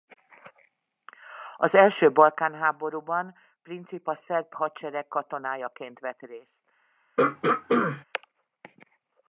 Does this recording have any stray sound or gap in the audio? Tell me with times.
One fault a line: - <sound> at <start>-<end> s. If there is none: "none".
- throat clearing at 7.2-8.0 s